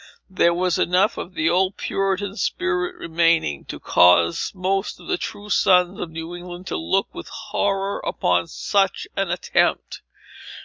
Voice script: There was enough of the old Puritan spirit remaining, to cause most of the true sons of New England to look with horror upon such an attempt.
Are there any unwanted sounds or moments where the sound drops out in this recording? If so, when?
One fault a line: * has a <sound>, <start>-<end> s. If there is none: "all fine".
all fine